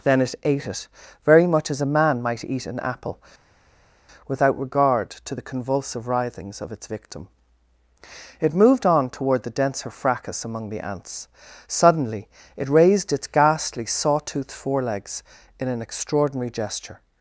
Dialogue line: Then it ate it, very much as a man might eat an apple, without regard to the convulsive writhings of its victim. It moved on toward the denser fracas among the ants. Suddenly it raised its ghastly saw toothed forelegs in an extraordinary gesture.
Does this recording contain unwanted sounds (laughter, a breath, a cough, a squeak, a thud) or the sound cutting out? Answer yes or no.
no